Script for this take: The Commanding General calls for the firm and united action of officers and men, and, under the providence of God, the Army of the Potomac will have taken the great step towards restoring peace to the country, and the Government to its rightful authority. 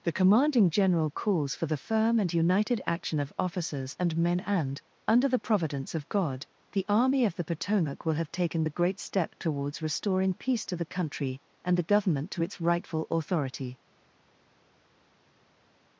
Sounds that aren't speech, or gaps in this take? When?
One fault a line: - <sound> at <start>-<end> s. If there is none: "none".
none